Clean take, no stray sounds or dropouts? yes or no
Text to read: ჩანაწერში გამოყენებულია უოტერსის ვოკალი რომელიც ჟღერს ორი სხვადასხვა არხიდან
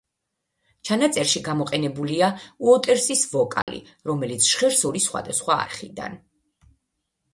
no